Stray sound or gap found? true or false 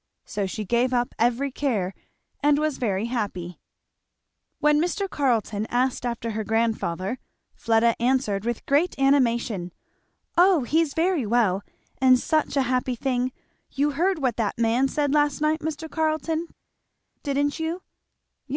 false